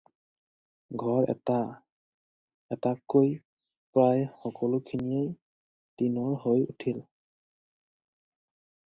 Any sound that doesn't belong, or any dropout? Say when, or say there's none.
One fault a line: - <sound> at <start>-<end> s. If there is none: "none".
none